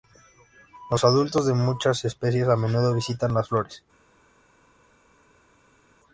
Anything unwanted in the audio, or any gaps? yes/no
no